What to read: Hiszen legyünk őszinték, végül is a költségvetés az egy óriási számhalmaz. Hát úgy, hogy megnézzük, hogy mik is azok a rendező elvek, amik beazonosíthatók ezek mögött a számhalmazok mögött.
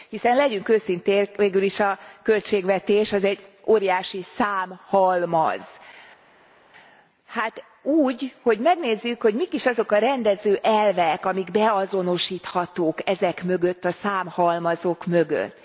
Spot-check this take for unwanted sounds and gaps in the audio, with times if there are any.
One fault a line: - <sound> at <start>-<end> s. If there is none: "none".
none